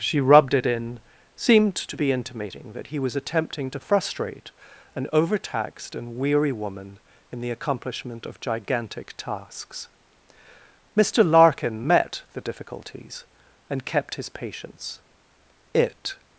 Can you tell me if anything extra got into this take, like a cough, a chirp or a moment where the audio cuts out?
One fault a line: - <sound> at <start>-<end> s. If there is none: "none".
none